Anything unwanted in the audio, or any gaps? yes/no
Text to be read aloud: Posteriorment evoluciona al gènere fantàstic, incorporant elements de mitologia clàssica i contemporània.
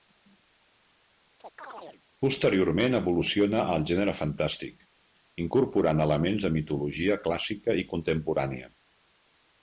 yes